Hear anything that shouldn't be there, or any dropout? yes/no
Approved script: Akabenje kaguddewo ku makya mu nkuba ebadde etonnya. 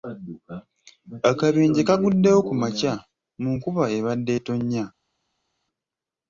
no